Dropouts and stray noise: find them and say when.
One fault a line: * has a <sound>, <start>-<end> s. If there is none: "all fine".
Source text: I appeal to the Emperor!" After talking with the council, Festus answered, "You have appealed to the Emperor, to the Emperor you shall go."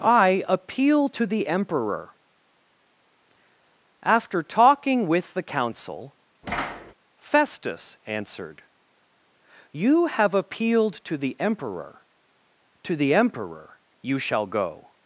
* has a thud, 6.4-6.9 s